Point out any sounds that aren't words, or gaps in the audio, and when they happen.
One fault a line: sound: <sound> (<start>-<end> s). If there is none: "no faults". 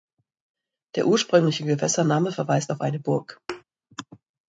sound: thud (3.5-3.6 s)